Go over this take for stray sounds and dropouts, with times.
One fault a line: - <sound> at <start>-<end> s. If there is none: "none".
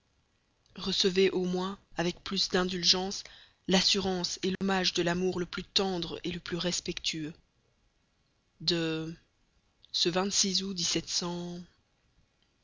- dropout at 4.6-4.6 s